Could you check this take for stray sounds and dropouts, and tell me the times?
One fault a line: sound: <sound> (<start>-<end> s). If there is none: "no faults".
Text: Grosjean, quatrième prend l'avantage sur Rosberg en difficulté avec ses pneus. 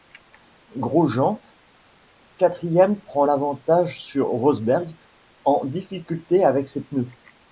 no faults